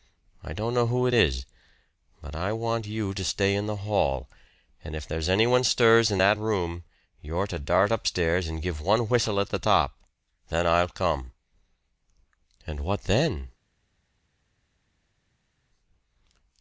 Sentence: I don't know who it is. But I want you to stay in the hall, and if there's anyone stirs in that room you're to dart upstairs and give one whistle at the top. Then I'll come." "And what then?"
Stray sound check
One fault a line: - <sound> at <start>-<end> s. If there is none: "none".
none